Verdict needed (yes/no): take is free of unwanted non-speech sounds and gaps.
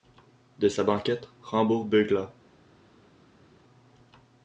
yes